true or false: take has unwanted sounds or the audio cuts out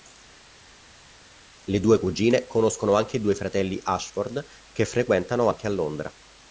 false